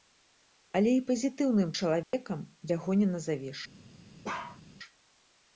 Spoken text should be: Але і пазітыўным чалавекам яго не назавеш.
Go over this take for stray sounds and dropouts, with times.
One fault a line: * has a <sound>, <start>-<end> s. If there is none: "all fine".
* has a dropout, 2.0-2.1 s
* has a bark, 4.2-4.6 s